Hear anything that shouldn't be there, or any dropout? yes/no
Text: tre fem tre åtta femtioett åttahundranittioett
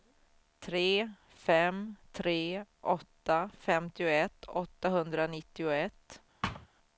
yes